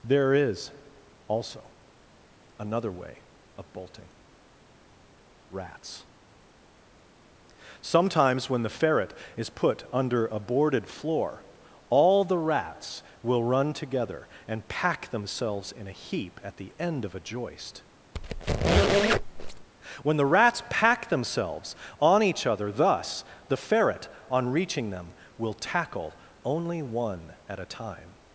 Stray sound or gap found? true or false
true